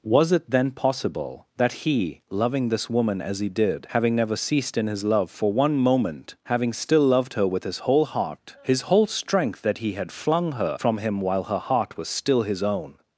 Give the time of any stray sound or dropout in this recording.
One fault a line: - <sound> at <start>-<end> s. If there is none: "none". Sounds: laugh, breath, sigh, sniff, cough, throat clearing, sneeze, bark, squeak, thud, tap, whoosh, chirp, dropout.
none